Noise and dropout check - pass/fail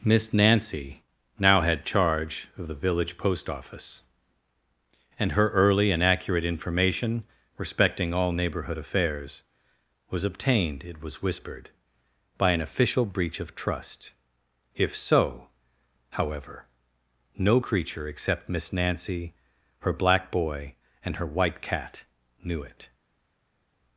pass